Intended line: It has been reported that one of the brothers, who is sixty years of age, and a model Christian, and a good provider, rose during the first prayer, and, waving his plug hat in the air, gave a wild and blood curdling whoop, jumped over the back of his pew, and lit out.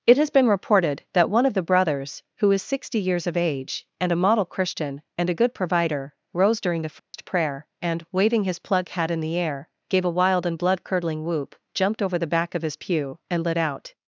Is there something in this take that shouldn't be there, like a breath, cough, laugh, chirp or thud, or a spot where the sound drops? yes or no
yes